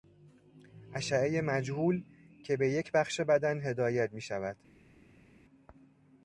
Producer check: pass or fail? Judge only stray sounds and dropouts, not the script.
pass